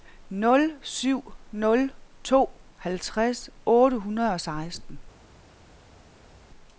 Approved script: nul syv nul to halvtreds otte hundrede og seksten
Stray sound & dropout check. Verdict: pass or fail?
pass